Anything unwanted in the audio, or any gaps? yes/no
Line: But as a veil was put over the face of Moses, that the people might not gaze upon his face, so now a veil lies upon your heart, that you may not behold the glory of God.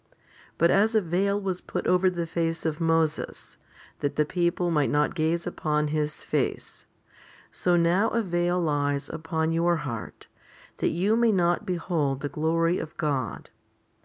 no